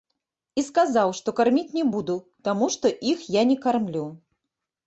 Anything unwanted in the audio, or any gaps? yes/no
no